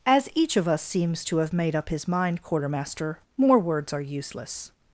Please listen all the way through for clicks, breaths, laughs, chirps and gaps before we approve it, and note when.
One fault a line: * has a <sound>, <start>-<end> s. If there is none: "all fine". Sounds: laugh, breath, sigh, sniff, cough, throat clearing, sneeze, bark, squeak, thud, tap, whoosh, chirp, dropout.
all fine